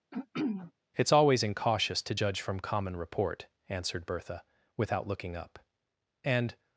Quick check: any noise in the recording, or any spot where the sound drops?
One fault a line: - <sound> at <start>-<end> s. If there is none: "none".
- throat clearing at 0.1-0.7 s